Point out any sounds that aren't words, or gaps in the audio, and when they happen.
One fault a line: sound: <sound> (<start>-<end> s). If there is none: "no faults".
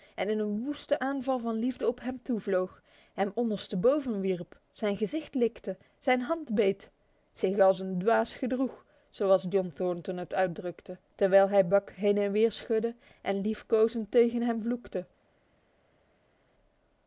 no faults